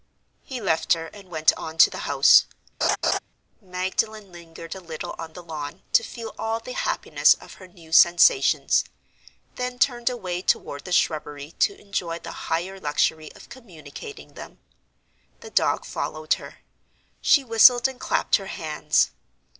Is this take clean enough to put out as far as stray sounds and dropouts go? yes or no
no